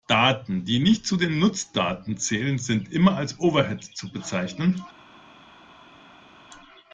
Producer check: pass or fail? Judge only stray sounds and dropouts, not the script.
pass